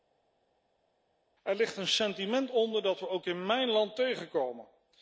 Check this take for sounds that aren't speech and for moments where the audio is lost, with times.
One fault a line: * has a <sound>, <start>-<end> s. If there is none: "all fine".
all fine